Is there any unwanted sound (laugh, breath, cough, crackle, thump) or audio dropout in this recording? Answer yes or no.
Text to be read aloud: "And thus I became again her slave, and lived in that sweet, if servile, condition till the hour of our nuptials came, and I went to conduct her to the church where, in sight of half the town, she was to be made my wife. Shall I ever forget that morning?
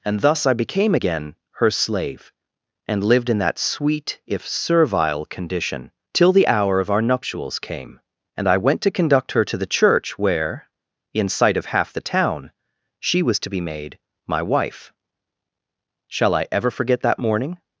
no